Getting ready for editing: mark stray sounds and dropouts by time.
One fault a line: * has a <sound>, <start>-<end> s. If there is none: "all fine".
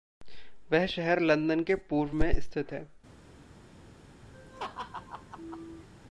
* has a laugh, 4.3-5.9 s